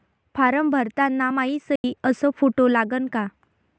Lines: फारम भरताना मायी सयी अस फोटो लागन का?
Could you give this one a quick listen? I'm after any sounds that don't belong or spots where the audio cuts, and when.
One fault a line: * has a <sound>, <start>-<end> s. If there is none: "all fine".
* has a dropout, 1.8-1.8 s